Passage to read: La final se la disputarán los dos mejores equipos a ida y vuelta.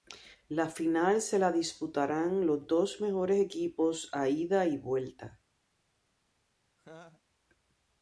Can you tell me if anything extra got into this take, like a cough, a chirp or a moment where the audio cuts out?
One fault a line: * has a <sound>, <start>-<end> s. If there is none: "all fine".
* has a laugh, 6.8-7.2 s